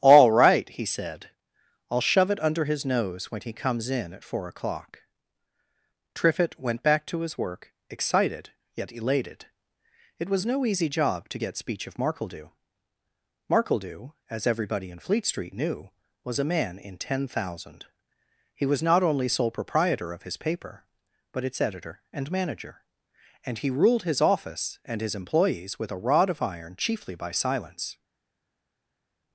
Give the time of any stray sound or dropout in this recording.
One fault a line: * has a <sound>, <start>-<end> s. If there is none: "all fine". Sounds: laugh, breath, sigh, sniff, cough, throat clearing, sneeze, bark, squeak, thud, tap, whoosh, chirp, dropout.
all fine